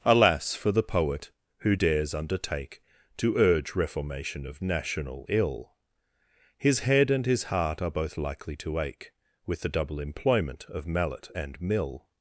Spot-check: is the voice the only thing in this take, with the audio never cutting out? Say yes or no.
yes